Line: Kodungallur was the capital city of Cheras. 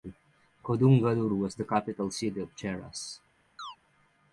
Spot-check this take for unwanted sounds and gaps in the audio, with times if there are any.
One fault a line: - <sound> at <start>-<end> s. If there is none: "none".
- chirp at 3.6-3.8 s